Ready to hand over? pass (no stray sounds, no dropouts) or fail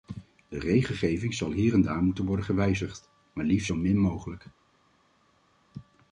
pass